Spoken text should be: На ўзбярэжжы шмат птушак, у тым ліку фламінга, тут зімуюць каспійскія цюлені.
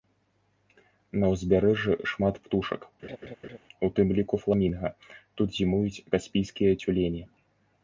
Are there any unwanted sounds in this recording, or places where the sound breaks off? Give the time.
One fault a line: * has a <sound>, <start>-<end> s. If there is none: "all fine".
* has a laugh, 3.0-3.6 s